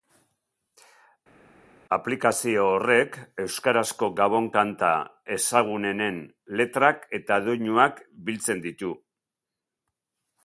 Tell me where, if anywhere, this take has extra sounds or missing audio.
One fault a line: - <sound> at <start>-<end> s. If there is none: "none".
none